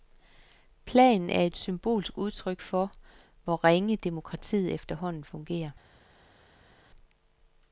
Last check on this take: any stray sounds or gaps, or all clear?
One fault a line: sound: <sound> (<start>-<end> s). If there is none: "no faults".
no faults